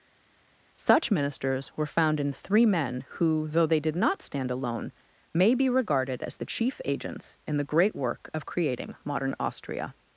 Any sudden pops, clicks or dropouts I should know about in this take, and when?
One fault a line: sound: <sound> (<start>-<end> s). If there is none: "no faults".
no faults